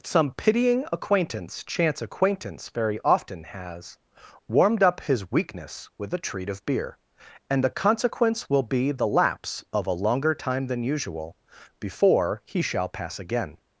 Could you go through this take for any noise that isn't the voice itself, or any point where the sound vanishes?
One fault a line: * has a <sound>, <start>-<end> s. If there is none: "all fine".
all fine